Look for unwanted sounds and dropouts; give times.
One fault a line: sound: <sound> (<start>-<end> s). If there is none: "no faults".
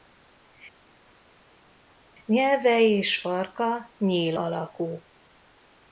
no faults